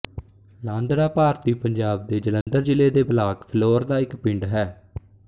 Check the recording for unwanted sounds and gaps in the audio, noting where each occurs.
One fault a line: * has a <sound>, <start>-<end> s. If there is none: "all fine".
* has a dropout, 2.4-2.5 s